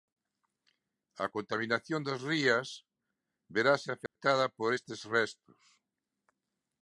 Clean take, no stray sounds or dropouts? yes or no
no